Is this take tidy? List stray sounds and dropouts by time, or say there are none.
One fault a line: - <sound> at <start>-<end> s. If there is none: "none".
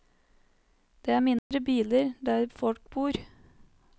- dropout at 1.4-1.5 s